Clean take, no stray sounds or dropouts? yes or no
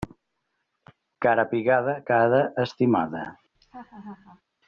no